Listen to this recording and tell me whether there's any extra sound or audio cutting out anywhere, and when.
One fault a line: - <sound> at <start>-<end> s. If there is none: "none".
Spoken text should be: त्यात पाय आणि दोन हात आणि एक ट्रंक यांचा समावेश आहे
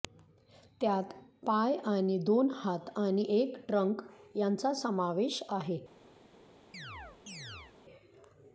- chirp at 6.7-7.8 s